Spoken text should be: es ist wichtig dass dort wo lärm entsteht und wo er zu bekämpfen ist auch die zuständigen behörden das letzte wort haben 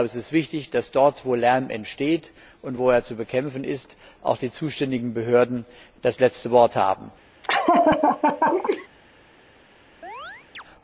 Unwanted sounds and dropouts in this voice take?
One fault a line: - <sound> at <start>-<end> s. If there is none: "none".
- laugh at 7.4-8.9 s
- chirp at 10.0-10.6 s